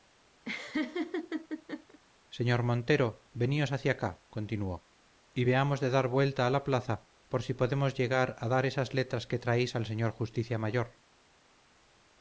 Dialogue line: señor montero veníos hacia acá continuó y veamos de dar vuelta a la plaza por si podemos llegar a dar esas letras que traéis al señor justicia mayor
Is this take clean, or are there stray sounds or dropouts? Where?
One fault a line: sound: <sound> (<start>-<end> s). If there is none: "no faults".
sound: laugh (0.4-2.0 s)